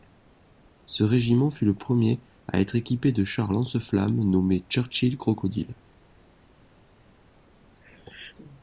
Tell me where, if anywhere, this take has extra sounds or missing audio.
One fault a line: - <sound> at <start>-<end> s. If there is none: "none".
none